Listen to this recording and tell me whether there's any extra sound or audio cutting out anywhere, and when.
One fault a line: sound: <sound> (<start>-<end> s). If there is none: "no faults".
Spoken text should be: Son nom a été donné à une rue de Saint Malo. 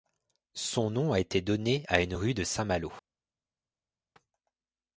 no faults